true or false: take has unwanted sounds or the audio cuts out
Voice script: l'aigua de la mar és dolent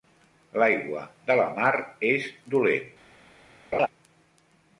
true